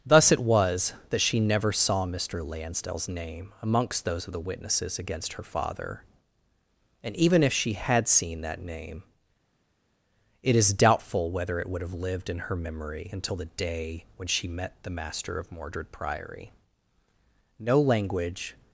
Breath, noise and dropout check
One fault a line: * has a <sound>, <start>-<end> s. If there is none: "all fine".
all fine